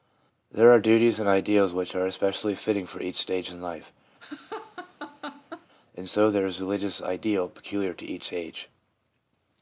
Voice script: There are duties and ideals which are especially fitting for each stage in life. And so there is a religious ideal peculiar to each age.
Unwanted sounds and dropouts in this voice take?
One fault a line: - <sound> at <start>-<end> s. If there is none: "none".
- laugh at 4.2-5.7 s